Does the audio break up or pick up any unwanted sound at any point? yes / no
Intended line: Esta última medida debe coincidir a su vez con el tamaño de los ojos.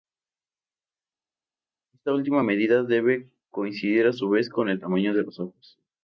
no